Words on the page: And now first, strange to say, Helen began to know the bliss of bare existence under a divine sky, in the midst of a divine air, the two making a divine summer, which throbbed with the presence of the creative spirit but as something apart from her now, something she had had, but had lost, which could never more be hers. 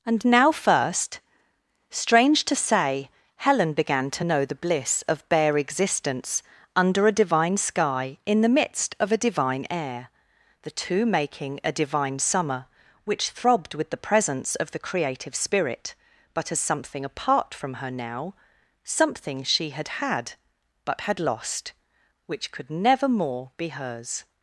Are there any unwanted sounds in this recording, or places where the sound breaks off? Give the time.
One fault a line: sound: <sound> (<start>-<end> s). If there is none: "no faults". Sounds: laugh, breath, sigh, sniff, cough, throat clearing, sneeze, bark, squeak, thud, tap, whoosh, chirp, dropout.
no faults